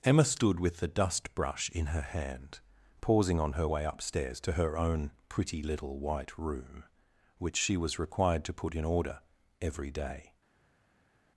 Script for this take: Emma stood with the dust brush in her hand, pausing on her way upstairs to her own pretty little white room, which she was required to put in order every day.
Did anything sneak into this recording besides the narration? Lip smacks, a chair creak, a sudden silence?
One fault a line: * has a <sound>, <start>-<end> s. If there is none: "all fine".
all fine